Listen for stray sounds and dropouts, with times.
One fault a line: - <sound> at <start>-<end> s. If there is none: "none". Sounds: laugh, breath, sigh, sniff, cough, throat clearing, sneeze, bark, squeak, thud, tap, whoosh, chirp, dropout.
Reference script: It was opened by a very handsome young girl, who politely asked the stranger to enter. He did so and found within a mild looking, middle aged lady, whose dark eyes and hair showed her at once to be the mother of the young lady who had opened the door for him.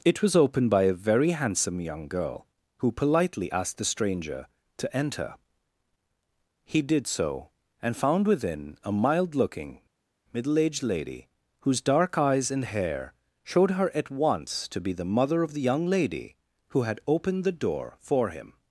none